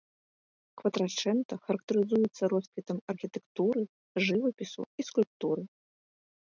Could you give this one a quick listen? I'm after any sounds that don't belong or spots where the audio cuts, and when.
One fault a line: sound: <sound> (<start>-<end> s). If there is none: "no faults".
no faults